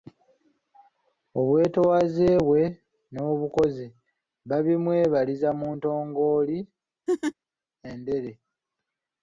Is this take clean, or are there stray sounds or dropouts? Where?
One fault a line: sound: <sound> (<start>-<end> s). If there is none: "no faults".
sound: laugh (7.1-7.3 s)